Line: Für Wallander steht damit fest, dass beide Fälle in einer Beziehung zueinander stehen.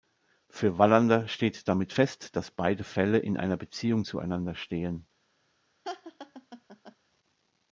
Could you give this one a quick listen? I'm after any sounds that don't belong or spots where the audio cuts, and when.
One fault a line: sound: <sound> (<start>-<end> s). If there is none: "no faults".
sound: laugh (5.8-7.0 s)